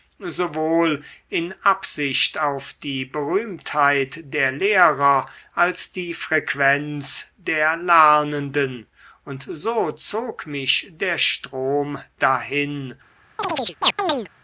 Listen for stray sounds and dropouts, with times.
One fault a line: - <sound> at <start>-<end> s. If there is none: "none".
- chirp at 13.4-14.3 s